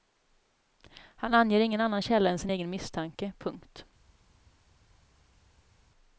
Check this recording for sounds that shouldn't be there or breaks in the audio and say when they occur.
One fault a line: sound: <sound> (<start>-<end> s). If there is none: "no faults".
no faults